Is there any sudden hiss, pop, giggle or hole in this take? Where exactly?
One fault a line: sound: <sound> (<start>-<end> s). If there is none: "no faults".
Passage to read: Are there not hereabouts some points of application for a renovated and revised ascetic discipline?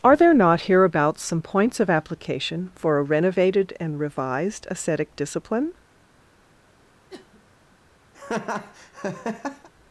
sound: sniff (7.1-7.4 s)
sound: laugh (8.1-9.7 s)